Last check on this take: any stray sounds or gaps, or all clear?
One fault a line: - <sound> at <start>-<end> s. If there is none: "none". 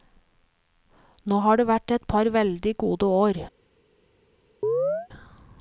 - chirp at 4.6-5.1 s